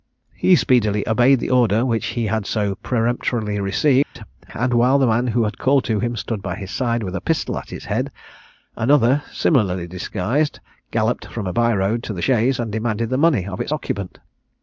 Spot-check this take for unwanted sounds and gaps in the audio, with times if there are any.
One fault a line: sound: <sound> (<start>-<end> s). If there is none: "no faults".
sound: dropout (4.0-4.2 s)